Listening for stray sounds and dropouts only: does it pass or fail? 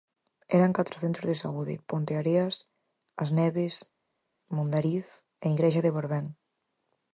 pass